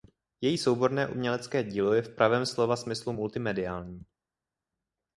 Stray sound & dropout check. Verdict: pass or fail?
pass